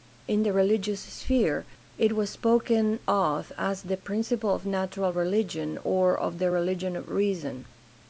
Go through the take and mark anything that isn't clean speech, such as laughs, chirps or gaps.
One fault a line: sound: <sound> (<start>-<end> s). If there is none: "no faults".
no faults